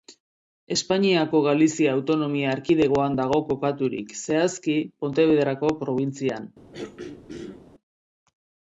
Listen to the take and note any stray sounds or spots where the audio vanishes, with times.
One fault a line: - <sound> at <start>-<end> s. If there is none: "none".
- throat clearing at 6.7-7.6 s